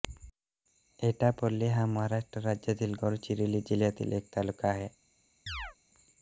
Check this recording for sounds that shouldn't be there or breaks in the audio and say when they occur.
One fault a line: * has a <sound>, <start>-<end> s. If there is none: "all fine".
* has a chirp, 5.5-5.8 s